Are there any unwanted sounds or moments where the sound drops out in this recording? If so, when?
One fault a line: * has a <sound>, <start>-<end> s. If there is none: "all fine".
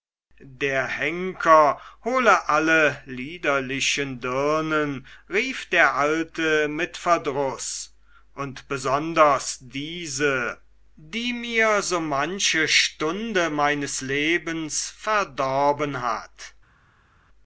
all fine